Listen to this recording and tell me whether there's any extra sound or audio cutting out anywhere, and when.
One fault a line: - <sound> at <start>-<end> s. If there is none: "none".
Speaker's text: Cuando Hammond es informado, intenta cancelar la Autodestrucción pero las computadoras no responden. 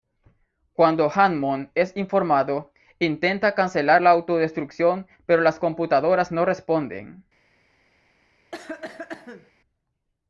- cough at 8.5-9.5 s